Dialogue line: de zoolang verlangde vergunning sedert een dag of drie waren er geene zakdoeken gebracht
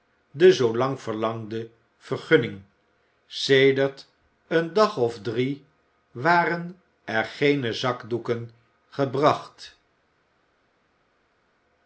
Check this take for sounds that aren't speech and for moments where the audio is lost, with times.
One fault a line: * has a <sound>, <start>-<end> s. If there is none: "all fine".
all fine